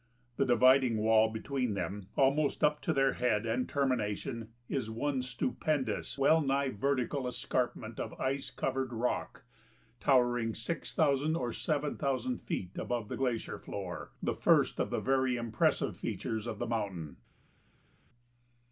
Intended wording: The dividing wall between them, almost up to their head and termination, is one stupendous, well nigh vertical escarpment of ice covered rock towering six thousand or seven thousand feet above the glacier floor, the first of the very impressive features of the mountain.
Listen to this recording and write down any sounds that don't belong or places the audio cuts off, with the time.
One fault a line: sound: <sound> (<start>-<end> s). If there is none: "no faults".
no faults